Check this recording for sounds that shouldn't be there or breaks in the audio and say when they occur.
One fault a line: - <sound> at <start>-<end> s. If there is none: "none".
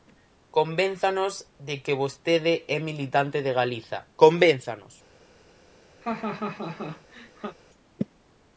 - laugh at 6.0-7.6 s